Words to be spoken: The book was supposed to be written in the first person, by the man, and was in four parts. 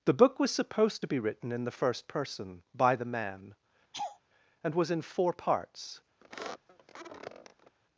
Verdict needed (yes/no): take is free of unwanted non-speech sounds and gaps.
no